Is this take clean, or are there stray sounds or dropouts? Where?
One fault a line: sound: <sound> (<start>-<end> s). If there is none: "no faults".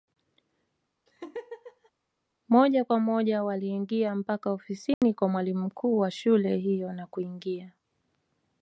sound: laugh (1.1-1.9 s)
sound: dropout (4.9-5.0 s)